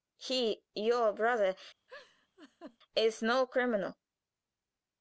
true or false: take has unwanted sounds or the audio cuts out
true